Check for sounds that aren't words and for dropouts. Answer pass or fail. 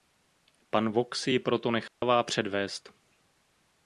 fail